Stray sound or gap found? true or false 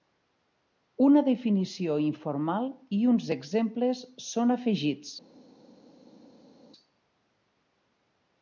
false